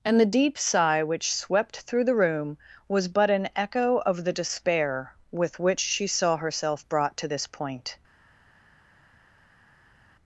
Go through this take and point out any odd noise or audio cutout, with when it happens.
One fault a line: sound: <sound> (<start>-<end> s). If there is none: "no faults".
no faults